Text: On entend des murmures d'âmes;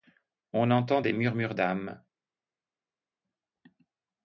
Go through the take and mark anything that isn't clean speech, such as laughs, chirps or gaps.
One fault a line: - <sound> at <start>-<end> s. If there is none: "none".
none